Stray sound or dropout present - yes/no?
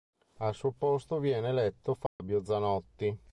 yes